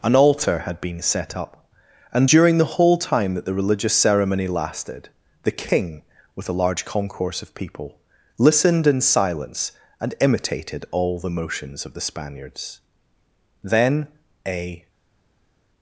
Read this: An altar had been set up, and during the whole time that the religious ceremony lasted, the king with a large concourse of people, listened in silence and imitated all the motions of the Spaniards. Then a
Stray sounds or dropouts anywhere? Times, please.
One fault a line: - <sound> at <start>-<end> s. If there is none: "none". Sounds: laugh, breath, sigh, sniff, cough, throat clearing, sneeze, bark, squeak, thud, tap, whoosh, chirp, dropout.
none